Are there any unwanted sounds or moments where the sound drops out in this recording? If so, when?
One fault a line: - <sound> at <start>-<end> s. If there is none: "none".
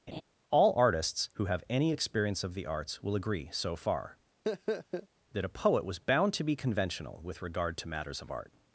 - laugh at 0.1-0.2 s
- laugh at 4.4-5.1 s